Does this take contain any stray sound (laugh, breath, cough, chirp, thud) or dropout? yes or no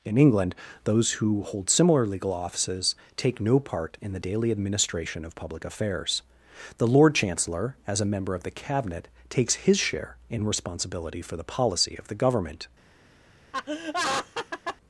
yes